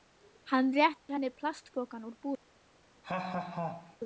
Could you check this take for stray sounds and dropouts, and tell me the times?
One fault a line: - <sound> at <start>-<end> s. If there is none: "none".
- dropout at 1.0-1.1 s
- laugh at 3.0-4.0 s